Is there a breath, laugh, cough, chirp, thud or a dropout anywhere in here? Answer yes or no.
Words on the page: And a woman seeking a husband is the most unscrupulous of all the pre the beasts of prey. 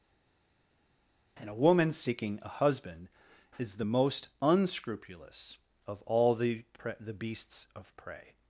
no